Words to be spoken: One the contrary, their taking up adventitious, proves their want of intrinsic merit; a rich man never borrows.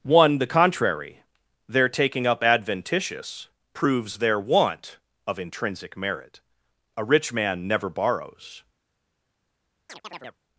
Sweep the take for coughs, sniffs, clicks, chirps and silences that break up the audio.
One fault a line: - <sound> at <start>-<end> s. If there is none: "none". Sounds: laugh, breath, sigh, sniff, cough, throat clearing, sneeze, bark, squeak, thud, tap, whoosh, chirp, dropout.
- chirp at 9.9-10.4 s